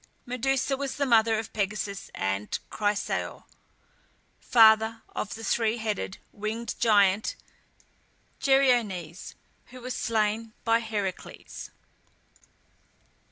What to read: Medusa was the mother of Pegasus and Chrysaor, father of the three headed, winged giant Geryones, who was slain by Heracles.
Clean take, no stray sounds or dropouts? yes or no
yes